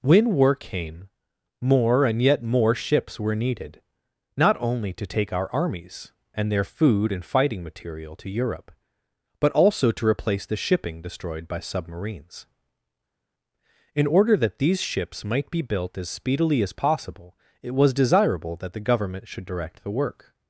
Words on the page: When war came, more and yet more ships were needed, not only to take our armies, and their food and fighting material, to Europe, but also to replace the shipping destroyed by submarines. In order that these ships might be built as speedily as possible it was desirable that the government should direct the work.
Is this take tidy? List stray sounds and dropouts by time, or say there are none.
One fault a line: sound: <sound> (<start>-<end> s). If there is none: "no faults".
no faults